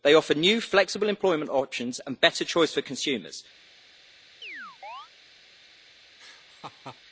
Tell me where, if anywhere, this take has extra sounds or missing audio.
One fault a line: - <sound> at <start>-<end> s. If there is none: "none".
- chirp at 4.4-5.1 s
- laugh at 6.2-7.0 s